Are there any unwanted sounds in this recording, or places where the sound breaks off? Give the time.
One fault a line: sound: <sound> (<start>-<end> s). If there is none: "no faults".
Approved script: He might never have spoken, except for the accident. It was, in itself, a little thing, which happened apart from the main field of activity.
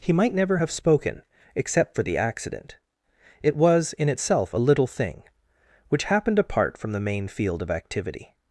no faults